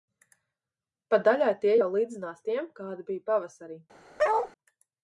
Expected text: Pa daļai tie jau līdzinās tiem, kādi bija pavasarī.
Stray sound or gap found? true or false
true